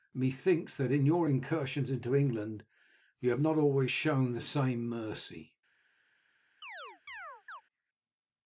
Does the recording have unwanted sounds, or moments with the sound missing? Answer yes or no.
yes